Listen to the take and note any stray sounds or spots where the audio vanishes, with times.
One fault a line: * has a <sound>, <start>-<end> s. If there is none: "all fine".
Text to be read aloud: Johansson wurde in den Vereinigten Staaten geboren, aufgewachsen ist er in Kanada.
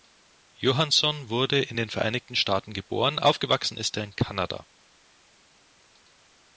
all fine